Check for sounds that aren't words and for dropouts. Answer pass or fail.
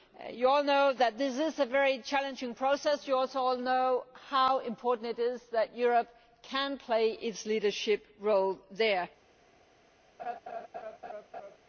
fail